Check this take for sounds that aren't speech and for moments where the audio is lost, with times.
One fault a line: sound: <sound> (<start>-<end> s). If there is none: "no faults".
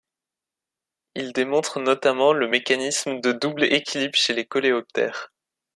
no faults